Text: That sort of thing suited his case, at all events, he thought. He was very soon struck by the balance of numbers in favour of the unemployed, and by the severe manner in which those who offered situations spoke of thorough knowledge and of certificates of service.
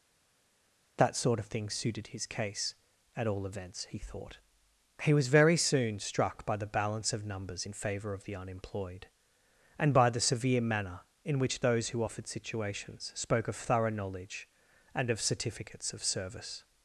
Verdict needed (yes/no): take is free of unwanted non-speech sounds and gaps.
yes